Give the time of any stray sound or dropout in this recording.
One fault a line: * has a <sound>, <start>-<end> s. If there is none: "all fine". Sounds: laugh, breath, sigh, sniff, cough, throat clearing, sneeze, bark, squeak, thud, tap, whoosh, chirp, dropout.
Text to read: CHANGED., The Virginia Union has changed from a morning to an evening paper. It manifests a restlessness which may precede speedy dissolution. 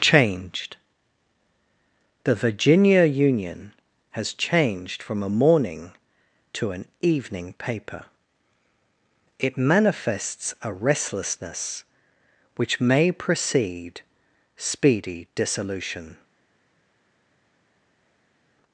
all fine